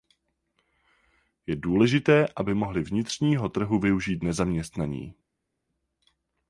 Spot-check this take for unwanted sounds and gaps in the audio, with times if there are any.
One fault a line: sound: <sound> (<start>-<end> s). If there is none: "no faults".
no faults